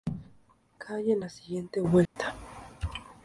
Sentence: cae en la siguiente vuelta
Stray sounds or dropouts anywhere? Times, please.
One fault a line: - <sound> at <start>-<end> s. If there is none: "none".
- dropout at 2.1-2.2 s